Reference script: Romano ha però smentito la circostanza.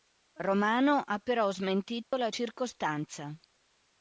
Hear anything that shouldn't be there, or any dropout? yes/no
yes